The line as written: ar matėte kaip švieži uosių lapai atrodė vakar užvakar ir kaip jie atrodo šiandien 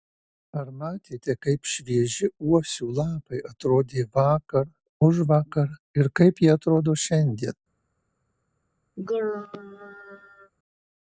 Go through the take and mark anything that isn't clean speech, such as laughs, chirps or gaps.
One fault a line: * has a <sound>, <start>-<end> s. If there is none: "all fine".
* has a throat clearing, 9.0-10.5 s